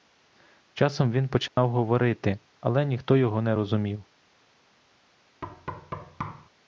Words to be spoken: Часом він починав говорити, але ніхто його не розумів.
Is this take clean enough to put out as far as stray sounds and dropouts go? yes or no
no